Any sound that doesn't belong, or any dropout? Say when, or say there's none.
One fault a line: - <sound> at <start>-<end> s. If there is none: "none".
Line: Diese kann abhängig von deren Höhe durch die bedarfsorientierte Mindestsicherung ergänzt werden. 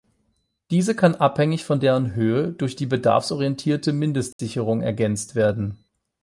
- dropout at 4.3-4.4 s